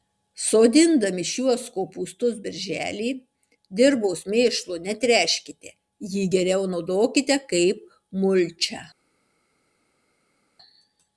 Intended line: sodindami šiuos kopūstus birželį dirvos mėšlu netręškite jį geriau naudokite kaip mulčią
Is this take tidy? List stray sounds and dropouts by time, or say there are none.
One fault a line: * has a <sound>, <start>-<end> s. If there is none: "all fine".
all fine